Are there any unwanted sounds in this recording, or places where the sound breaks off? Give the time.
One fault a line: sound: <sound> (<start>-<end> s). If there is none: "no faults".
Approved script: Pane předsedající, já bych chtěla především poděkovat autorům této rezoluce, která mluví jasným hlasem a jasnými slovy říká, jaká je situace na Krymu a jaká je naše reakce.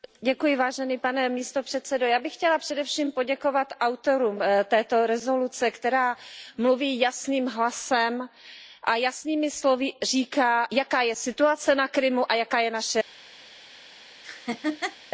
sound: laugh (14.2-15.0 s)